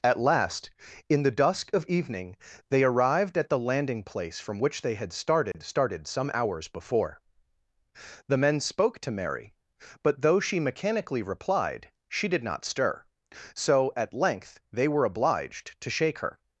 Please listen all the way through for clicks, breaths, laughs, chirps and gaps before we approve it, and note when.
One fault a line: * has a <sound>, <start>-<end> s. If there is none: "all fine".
* has a dropout, 5.5-5.5 s